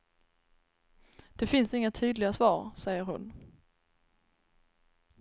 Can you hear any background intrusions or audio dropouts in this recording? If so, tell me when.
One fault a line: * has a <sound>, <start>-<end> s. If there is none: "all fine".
all fine